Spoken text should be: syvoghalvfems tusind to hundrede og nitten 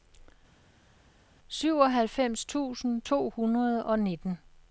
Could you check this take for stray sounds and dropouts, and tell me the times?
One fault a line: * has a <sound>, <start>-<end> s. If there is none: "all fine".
all fine